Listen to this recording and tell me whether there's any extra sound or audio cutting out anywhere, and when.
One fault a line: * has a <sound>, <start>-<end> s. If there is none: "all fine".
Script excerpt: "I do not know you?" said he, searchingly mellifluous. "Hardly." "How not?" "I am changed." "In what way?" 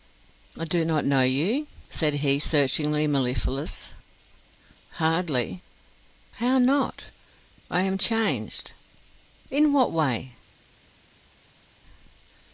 all fine